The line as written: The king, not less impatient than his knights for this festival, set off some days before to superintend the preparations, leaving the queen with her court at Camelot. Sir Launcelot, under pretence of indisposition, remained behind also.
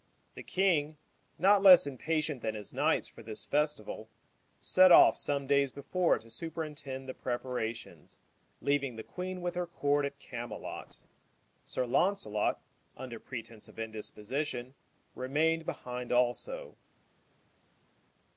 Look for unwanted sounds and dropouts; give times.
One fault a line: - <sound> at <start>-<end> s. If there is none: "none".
none